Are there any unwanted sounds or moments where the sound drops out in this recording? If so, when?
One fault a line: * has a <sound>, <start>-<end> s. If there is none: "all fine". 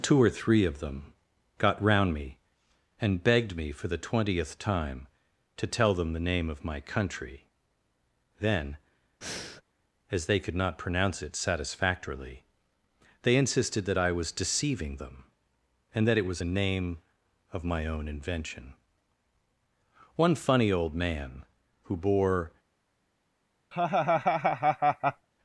* has a breath, 9.2-9.6 s
* has a laugh, 23.7-25.3 s